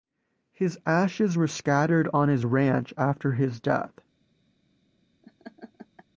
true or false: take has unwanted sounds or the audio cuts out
true